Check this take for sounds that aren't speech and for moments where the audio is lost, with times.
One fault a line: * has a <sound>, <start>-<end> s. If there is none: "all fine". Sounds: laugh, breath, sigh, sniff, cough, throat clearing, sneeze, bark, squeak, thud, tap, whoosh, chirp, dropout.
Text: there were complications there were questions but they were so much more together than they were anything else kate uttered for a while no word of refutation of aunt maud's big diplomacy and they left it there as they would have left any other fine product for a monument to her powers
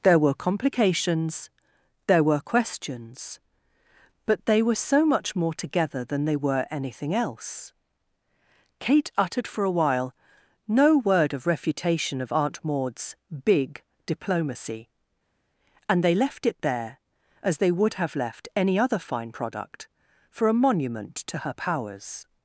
all fine